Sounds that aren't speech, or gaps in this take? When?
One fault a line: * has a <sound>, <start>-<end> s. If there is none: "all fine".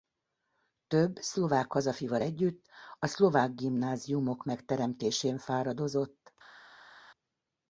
all fine